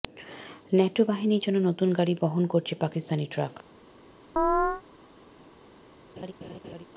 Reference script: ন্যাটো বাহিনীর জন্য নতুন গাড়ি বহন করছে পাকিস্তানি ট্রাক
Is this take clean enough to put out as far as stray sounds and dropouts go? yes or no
no